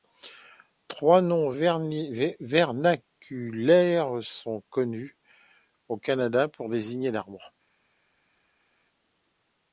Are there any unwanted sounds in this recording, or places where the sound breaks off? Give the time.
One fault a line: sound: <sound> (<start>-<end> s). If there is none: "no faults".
no faults